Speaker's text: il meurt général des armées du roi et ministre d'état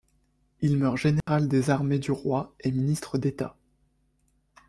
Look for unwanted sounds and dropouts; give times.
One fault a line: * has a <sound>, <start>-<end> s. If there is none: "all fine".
* has a dropout, 1.2-1.3 s